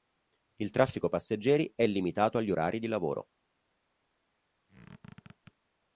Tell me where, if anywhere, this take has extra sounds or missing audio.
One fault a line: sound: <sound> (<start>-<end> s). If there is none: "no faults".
sound: squeak (4.7-5.5 s)